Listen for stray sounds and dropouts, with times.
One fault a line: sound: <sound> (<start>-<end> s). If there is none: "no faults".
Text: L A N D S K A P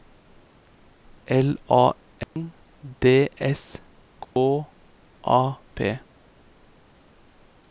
sound: dropout (2.2-2.4 s)
sound: dropout (4.2-4.4 s)